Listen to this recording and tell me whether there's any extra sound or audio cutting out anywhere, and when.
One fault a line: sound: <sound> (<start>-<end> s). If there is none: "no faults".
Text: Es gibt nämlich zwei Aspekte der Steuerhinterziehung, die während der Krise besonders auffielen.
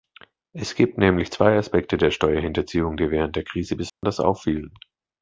sound: dropout (3.9-4.0 s)